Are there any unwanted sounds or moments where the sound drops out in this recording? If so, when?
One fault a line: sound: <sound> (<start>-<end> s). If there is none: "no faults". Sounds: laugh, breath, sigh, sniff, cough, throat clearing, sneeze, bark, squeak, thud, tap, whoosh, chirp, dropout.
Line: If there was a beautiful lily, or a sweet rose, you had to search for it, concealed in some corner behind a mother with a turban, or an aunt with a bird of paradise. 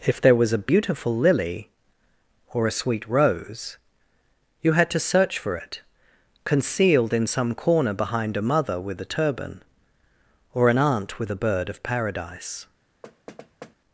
sound: thud (13.0-13.8 s)